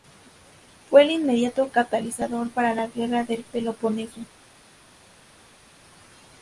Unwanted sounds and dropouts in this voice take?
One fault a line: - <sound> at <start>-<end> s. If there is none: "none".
none